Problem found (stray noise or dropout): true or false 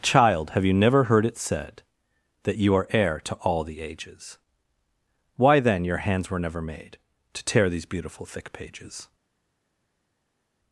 false